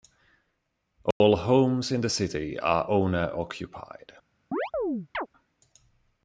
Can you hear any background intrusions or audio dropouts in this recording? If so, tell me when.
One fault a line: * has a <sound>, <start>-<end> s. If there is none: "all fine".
* has a dropout, 1.1-1.2 s
* has a chirp, 4.5-5.3 s